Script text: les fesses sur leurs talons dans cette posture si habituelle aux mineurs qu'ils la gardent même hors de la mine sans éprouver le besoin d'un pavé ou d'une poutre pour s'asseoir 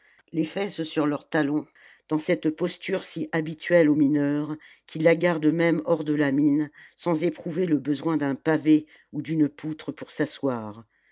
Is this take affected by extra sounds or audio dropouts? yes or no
no